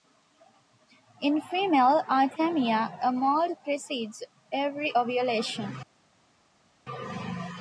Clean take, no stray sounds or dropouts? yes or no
yes